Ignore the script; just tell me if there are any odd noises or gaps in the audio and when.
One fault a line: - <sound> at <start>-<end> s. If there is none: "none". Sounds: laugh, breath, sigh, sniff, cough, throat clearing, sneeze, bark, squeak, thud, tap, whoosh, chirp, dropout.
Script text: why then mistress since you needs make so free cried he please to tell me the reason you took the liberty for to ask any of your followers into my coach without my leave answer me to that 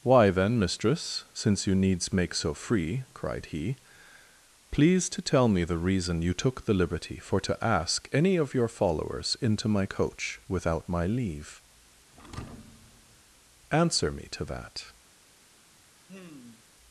- thud at 12.1-13.2 s
- sigh at 16.1-16.7 s